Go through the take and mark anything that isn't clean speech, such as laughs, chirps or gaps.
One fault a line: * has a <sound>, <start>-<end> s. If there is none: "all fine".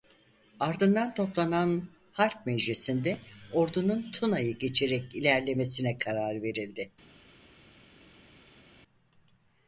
all fine